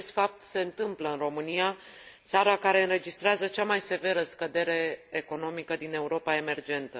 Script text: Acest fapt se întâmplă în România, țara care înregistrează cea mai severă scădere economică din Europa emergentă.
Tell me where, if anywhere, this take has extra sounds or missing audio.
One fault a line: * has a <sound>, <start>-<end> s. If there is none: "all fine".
all fine